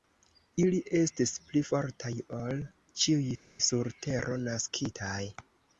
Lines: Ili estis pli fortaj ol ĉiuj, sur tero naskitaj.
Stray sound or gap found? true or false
false